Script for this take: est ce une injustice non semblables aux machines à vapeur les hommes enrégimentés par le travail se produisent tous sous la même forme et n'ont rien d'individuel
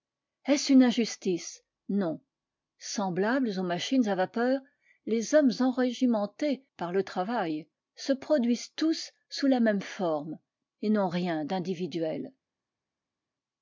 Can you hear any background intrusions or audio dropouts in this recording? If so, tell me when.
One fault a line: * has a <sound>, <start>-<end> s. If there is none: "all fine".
all fine